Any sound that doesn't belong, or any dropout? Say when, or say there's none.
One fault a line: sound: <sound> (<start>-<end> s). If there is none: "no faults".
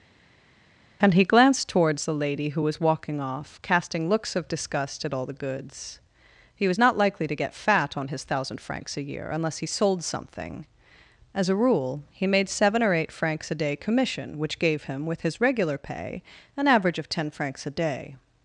no faults